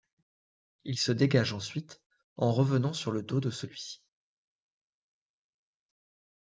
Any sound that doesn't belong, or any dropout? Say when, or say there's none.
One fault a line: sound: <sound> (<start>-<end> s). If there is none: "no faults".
no faults